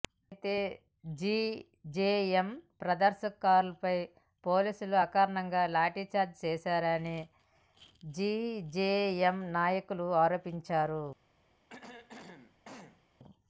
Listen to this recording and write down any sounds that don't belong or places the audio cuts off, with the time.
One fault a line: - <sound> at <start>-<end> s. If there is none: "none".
- throat clearing at 11.7-13.0 s